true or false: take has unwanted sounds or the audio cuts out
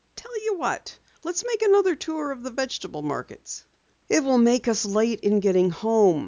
false